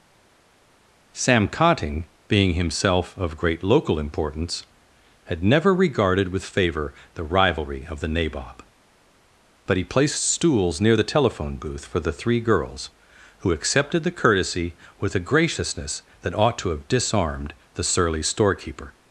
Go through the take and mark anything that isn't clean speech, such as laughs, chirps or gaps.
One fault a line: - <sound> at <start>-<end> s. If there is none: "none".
none